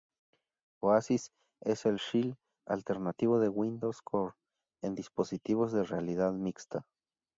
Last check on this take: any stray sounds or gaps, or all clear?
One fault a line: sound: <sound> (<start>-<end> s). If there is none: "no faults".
no faults